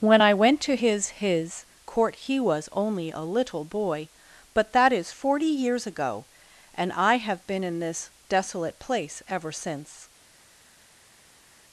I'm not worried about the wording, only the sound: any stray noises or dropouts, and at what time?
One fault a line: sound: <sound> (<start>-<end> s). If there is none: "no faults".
no faults